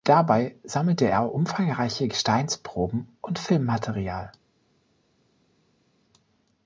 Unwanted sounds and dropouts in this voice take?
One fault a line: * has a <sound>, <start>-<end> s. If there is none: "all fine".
all fine